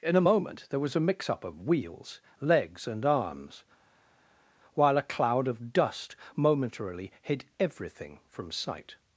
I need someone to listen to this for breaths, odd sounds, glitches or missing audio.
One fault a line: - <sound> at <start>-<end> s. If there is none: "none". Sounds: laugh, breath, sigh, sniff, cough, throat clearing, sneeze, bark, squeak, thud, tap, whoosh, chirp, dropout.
none